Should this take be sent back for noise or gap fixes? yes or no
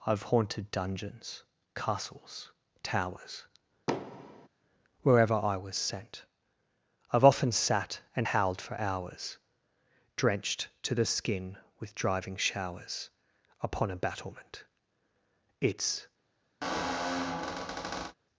yes